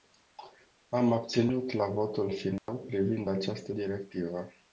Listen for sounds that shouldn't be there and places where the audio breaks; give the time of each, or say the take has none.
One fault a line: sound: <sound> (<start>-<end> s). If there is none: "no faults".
sound: dropout (2.6-2.7 s)